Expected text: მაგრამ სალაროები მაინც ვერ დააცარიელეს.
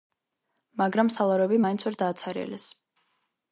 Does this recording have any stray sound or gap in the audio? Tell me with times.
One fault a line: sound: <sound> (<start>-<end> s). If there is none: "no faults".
no faults